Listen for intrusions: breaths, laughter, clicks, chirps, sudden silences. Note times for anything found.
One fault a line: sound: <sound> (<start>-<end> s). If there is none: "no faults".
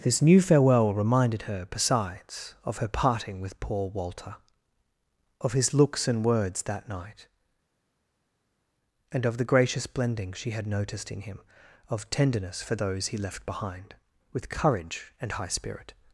no faults